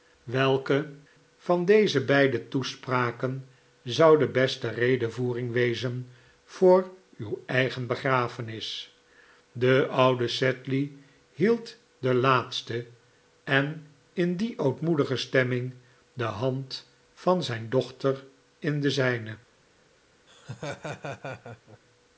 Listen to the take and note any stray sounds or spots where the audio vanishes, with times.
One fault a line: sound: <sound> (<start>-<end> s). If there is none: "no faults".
sound: laugh (20.3-21.8 s)